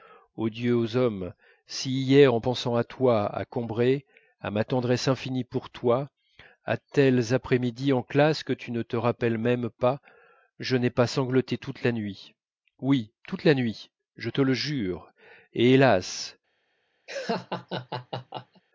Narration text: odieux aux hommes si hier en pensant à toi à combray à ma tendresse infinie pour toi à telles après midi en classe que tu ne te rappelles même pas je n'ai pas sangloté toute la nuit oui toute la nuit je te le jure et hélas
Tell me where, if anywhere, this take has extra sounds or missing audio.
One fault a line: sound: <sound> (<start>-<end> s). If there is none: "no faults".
sound: laugh (17.1-18.6 s)